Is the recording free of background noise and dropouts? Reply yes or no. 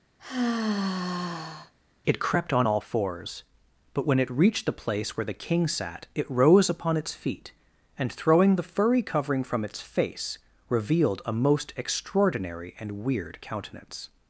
no